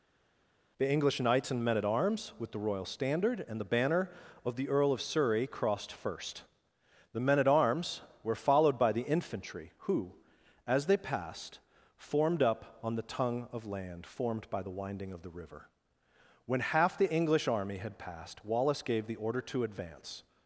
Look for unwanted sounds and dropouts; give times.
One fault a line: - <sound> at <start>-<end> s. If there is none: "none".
none